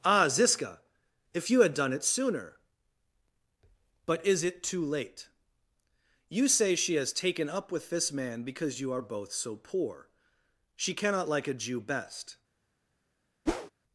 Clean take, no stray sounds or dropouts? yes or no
no